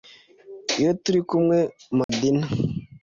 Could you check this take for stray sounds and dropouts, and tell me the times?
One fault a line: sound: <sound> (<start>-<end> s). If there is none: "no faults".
sound: dropout (2.0-2.1 s)